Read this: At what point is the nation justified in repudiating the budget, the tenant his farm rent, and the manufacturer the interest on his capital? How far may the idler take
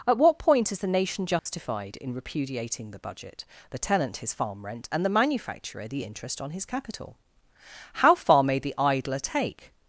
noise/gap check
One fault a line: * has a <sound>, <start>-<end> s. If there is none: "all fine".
* has a dropout, 1.4-1.5 s